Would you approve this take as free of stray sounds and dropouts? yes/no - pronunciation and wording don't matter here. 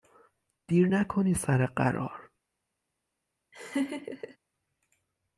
no